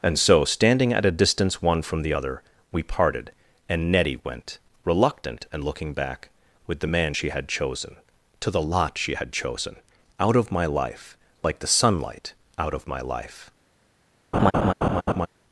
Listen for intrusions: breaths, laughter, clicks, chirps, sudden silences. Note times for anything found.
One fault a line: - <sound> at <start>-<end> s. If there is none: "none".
- laugh at 14.3-15.3 s